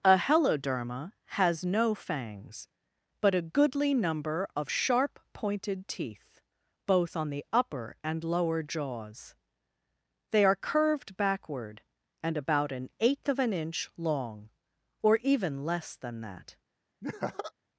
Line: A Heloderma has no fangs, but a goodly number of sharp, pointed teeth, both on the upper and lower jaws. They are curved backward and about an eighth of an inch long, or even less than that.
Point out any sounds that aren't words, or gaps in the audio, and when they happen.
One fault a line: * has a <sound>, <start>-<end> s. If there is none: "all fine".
* has a laugh, 17.0-17.5 s